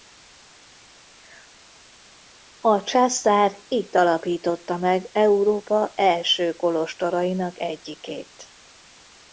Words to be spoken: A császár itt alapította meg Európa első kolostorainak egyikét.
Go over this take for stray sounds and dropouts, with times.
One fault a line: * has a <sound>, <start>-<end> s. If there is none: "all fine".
all fine